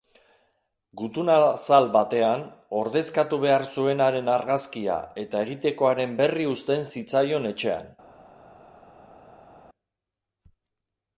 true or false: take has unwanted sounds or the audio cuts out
false